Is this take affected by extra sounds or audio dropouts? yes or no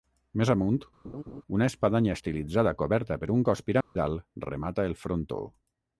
yes